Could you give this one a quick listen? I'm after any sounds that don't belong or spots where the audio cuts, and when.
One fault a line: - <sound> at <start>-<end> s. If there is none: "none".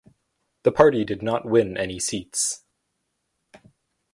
none